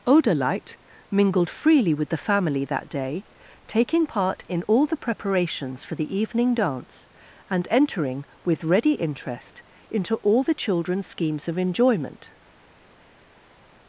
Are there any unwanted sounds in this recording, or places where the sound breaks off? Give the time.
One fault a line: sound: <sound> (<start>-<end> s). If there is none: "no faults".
no faults